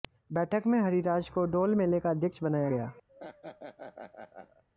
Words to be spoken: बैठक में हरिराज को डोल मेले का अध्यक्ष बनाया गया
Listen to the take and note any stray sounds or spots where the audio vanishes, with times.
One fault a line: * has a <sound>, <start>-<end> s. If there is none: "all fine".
* has a laugh, 3.1-4.6 s